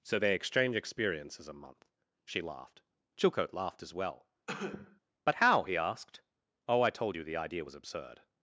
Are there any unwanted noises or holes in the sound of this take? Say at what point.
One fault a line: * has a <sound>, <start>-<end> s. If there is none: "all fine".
* has a cough, 4.5-5.0 s